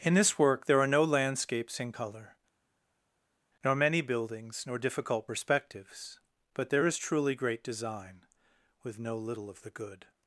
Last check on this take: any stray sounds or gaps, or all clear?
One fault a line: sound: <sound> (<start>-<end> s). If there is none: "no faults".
no faults